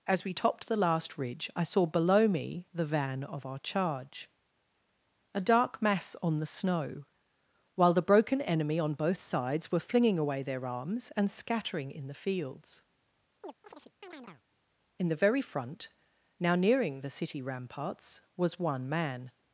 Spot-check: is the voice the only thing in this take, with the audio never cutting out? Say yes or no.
no